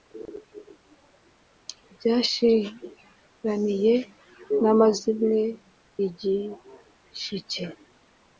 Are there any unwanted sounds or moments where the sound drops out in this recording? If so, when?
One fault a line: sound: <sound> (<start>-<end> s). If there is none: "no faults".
no faults